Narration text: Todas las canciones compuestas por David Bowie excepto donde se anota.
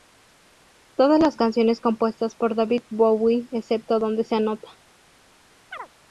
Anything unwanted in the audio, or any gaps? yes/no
yes